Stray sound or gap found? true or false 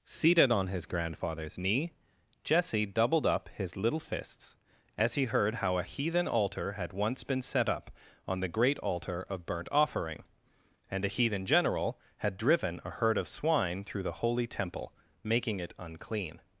false